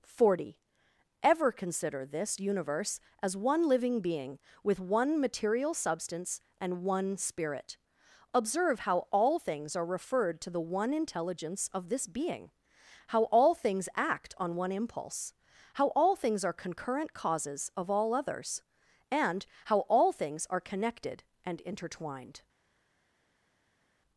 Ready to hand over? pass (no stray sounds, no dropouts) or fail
pass